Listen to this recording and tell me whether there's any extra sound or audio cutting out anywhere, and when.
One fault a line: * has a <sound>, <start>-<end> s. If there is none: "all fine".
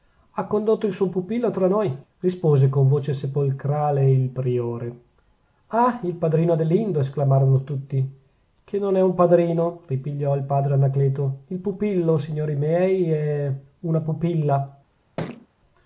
* has a thud, 15.2-15.5 s